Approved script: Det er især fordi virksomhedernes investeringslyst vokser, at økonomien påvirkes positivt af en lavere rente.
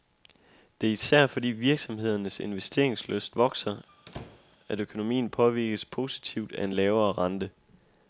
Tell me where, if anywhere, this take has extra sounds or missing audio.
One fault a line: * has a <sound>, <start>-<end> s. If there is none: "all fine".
* has a squeak, 3.9-4.6 s